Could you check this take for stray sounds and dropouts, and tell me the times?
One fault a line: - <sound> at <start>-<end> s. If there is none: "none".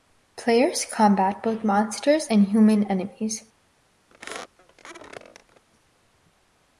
- squeak at 4.1-5.6 s